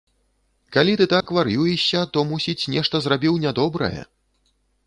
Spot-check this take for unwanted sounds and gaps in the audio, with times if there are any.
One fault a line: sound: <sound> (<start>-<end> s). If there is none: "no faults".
sound: dropout (1.2-1.3 s)